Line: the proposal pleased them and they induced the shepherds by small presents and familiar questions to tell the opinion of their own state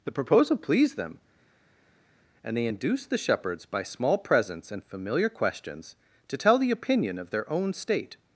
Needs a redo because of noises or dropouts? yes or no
no